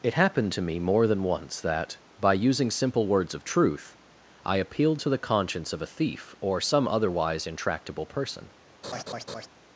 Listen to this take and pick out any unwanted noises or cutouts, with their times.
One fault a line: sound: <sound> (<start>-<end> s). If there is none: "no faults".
sound: laugh (8.8-9.5 s)